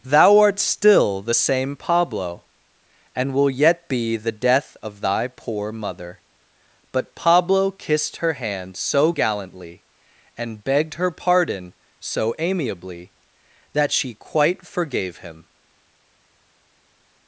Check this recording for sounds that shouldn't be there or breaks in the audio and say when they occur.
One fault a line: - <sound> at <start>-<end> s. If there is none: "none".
none